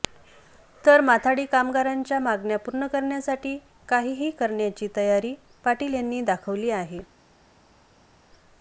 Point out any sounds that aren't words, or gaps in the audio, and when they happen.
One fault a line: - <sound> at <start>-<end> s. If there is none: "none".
none